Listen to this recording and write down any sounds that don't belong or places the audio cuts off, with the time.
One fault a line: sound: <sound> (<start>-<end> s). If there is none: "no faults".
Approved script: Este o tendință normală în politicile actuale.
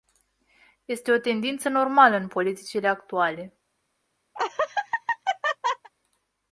sound: laugh (4.3-5.9 s)